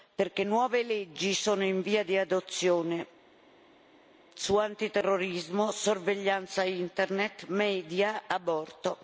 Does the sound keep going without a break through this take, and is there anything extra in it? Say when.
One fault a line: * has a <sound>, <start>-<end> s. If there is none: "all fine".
all fine